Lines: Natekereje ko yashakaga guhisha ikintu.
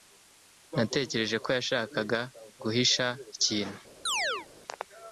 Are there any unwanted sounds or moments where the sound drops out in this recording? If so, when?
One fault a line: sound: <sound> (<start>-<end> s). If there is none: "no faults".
sound: chirp (4.1-4.5 s)